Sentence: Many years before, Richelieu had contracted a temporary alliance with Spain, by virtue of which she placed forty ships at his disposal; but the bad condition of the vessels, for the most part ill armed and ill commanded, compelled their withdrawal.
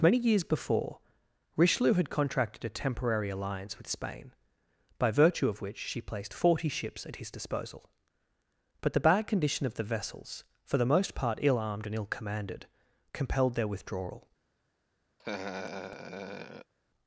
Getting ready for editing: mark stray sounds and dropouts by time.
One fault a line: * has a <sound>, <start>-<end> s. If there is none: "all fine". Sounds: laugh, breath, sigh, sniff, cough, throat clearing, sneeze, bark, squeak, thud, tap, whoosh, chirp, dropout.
* has a laugh, 15.2-16.7 s